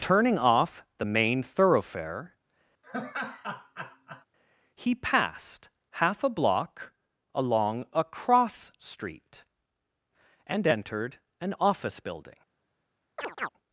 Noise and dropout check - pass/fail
fail